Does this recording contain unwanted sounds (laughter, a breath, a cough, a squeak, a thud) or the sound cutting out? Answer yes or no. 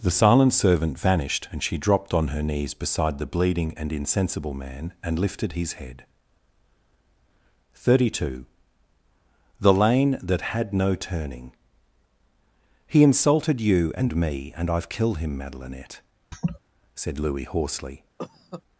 yes